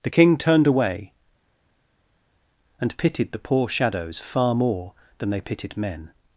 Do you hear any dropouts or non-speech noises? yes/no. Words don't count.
no